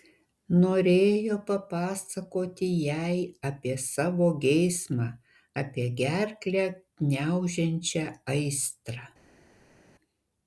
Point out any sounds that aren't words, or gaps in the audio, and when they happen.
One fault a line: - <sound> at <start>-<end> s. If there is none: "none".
none